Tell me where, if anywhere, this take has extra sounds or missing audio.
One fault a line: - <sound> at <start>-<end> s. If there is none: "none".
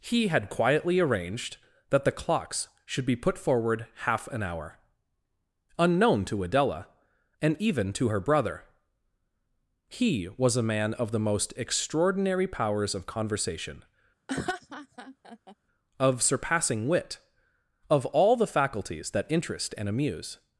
- laugh at 14.3-15.6 s